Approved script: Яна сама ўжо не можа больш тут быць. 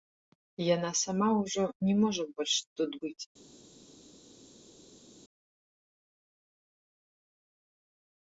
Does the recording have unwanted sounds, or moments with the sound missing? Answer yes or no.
no